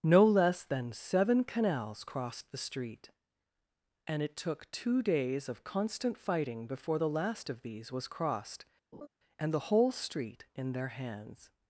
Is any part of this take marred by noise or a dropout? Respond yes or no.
yes